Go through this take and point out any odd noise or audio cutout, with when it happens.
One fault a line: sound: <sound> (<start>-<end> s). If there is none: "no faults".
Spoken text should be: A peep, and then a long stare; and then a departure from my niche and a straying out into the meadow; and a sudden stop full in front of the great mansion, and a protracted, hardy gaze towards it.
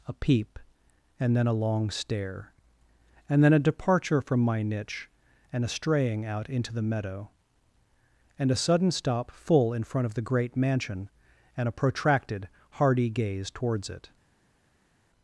no faults